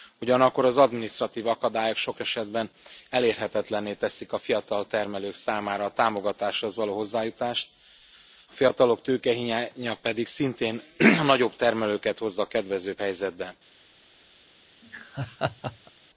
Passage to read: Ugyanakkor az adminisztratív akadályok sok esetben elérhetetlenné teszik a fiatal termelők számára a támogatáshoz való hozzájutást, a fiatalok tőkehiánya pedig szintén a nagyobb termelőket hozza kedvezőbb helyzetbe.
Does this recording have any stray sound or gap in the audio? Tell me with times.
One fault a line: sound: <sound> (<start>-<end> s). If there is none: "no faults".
sound: laugh (14.8-15.9 s)